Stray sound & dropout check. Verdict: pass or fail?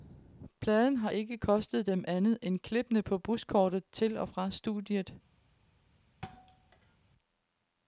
fail